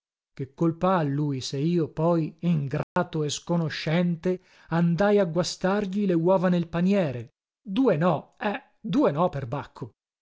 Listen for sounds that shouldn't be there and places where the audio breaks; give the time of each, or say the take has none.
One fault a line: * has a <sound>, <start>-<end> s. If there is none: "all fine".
* has a dropout, 2.8-3.0 s